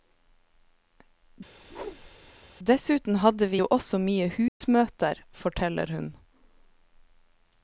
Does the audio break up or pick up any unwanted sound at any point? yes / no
yes